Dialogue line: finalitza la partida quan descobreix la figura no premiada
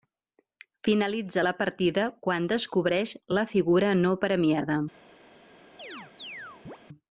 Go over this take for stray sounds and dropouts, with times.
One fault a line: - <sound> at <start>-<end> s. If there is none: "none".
- chirp at 5.8-6.8 s